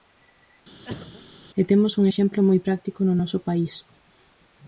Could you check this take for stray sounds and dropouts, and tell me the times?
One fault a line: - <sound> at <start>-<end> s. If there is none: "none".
- cough at 0.8-1.2 s